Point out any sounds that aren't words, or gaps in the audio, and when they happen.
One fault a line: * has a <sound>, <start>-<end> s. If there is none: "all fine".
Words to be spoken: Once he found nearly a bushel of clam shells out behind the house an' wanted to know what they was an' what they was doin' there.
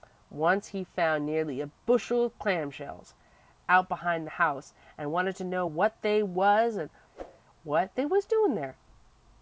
* has a whoosh, 7.1-7.4 s